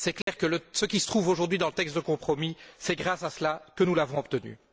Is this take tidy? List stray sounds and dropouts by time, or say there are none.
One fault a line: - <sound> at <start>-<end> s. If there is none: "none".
- dropout at 0.2-0.3 s